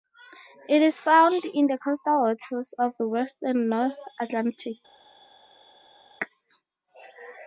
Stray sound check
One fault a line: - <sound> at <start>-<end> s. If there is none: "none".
none